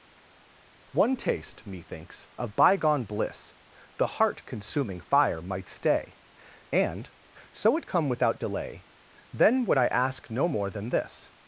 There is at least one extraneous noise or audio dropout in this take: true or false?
false